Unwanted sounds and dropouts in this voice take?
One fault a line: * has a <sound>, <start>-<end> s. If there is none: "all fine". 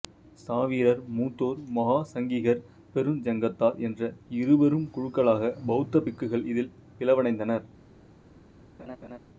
* has a laugh, 8.8-9.2 s